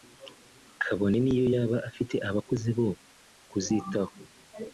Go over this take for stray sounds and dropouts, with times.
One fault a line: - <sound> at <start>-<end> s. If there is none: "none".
none